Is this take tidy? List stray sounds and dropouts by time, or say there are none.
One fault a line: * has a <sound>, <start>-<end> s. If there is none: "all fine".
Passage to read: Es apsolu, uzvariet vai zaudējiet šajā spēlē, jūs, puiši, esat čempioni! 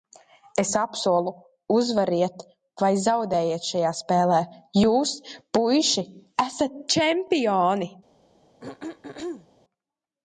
* has a throat clearing, 8.6-9.5 s